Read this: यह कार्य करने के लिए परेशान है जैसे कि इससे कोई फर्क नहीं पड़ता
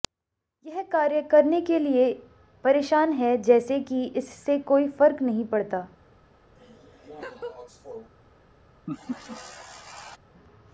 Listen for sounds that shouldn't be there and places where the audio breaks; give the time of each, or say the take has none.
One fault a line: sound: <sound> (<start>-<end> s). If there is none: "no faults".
sound: laugh (6.6-8.1 s)
sound: laugh (8.9-10.2 s)